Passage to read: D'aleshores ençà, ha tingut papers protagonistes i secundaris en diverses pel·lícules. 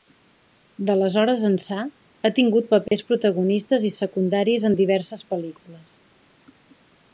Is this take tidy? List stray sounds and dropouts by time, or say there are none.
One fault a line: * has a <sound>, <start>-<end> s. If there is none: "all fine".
* has a dropout, 2.9-2.9 s